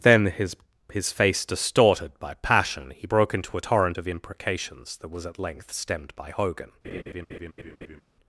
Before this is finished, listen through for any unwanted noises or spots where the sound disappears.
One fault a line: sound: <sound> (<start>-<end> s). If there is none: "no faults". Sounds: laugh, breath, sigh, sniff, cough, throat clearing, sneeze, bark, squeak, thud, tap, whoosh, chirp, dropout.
sound: laugh (6.8-8.0 s)